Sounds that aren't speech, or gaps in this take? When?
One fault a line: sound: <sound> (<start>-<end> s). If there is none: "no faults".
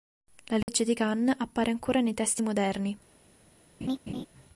sound: dropout (0.6-0.7 s)
sound: laugh (3.8-4.3 s)